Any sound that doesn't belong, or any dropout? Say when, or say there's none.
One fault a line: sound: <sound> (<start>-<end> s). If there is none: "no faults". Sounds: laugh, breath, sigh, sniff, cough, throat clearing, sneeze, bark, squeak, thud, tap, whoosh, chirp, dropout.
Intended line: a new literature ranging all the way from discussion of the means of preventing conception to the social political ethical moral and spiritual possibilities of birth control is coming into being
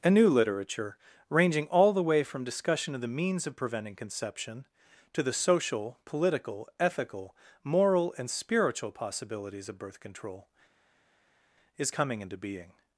no faults